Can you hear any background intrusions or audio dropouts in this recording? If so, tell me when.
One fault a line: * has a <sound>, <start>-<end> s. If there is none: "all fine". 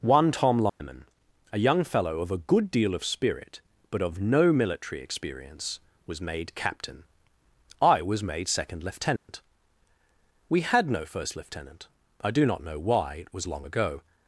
* has a dropout, 0.7-0.8 s
* has a dropout, 9.2-9.3 s